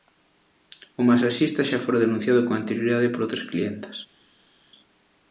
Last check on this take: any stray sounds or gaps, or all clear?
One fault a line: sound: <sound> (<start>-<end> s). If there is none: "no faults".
no faults